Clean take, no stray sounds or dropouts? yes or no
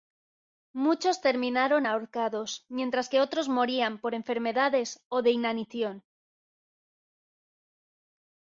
yes